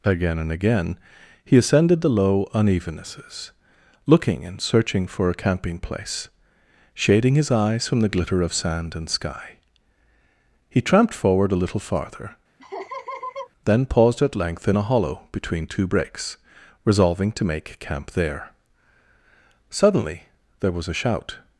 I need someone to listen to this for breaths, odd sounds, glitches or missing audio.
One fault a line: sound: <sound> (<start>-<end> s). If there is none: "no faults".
sound: laugh (12.6-13.5 s)